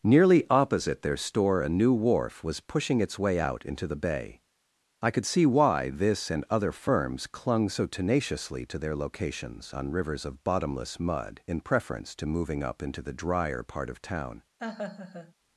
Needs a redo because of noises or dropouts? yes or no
yes